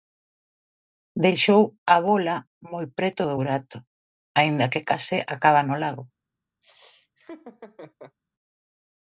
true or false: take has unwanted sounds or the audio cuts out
true